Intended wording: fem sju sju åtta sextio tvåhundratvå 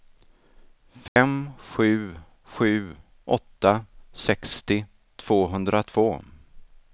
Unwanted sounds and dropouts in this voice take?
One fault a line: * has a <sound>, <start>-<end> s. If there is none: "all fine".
* has a dropout, 1.1-1.2 s